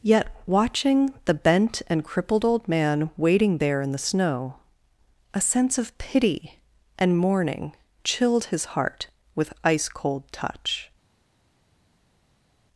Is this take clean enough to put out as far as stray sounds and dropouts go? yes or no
yes